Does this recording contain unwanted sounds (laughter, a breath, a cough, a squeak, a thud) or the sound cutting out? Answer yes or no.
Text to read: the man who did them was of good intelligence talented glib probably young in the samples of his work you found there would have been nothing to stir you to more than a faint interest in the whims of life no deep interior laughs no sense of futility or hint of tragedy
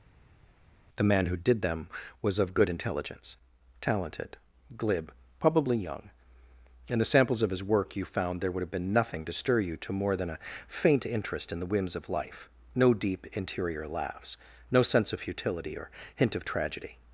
no